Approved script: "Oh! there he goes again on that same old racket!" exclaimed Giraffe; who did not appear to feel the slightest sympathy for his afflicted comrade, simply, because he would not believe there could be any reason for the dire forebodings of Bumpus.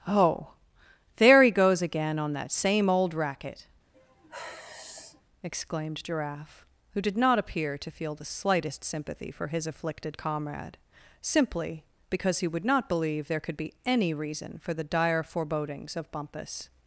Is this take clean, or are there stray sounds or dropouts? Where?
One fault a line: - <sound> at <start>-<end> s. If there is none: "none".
- sigh at 3.9-5.2 s